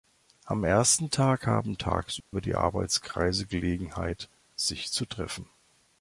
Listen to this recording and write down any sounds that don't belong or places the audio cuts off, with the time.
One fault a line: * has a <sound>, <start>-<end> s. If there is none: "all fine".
* has a dropout, 2.2-2.3 s